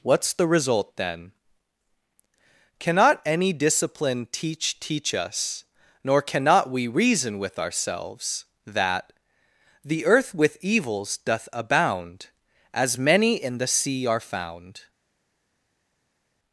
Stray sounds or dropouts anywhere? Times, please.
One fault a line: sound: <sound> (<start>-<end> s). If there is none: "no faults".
no faults